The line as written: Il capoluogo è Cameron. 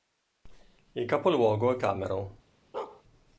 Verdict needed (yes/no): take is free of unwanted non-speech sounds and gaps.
no